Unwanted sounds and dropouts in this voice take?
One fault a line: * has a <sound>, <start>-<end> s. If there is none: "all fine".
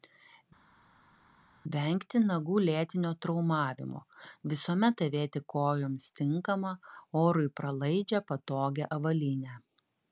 all fine